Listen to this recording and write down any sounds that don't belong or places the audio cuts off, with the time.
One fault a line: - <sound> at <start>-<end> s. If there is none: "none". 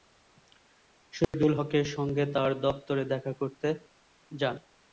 - dropout at 1.2-1.3 s